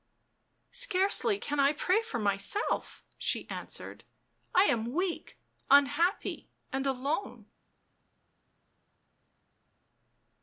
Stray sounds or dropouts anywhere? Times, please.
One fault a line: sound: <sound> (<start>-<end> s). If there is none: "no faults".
no faults